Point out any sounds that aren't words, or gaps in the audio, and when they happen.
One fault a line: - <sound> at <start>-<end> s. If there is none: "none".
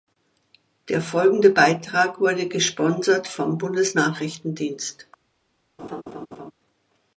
- laugh at 5.8-6.5 s